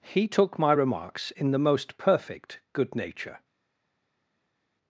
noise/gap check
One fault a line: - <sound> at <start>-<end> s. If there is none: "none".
none